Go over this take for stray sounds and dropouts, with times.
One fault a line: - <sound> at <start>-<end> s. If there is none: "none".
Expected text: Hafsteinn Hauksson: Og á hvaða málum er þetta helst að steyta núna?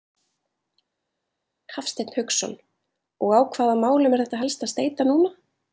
none